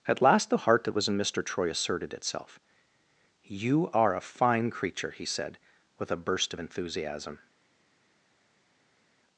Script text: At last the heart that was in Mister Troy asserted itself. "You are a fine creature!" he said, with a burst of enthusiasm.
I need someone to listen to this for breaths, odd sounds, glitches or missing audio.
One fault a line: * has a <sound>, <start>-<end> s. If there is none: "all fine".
all fine